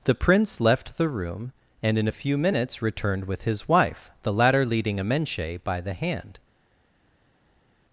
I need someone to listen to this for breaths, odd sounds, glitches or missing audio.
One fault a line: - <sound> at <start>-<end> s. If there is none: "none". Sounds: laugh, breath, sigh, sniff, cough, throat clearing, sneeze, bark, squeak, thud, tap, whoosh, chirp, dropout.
none